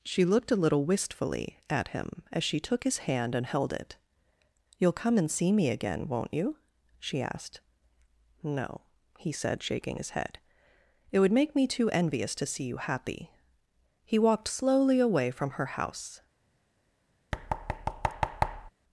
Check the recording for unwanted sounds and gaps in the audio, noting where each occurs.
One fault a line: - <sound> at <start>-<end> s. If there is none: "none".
- thud at 17.3-18.7 s